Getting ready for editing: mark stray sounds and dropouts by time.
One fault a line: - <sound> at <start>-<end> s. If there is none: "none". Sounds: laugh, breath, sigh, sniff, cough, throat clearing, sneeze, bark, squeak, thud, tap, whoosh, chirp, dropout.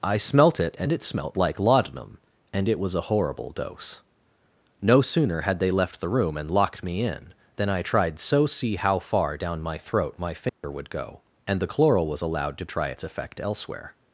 - dropout at 10.5-10.6 s